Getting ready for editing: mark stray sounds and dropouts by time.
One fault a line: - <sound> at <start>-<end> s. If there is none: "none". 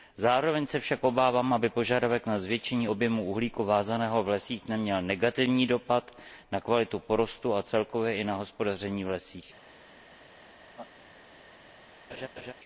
- laugh at 10.7-10.9 s
- laugh at 12.1-12.5 s